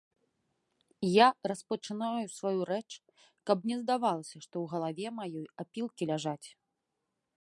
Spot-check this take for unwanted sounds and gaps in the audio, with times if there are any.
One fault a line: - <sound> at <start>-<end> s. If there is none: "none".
none